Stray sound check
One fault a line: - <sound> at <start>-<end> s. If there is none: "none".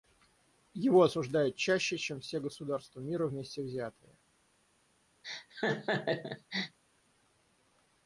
- laugh at 5.2-6.8 s